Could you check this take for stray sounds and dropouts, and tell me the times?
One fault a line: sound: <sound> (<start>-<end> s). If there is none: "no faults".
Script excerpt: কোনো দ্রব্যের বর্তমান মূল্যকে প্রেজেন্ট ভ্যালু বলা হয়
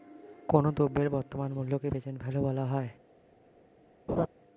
sound: laugh (4.1-4.3 s)